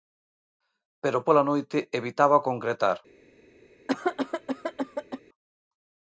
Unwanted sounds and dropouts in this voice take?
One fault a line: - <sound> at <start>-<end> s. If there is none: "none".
- cough at 3.9-5.2 s